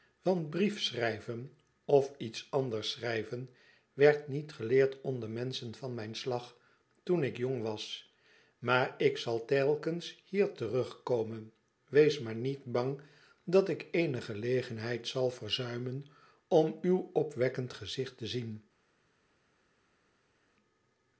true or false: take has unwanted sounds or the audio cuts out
false